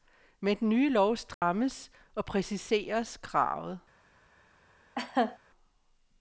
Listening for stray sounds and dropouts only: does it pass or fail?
fail